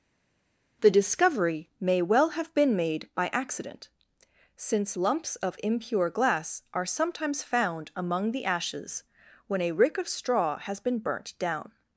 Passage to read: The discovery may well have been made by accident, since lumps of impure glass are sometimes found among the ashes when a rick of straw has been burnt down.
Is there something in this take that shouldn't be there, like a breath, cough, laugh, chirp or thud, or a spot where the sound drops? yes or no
no